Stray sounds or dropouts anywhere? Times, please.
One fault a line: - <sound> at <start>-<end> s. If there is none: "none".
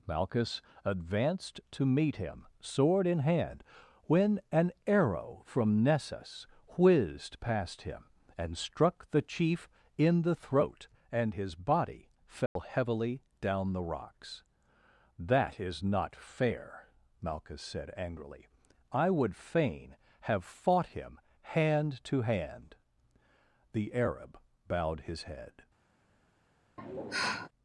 - dropout at 12.5-12.6 s
- sigh at 26.8-27.5 s